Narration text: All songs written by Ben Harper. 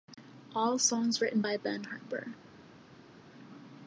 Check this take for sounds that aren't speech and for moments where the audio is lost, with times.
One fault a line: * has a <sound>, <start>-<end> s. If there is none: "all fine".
all fine